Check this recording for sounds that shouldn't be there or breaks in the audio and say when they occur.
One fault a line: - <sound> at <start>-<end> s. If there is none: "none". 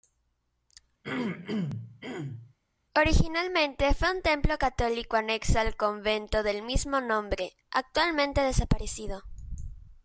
- throat clearing at 1.0-2.5 s